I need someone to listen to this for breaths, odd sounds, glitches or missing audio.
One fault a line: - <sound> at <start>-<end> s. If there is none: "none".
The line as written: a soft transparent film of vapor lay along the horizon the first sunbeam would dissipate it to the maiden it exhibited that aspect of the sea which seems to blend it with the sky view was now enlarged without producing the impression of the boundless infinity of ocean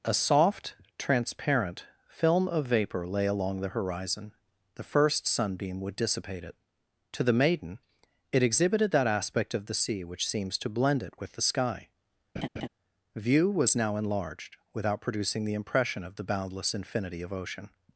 - laugh at 12.4-12.7 s